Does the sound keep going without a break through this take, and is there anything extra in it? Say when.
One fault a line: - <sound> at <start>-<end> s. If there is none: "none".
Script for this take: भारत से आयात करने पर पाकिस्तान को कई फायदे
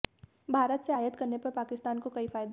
none